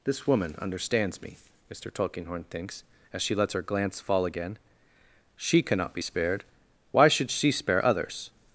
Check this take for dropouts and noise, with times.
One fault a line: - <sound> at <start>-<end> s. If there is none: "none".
none